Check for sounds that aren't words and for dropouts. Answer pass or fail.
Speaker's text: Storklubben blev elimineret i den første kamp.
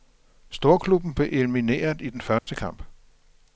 fail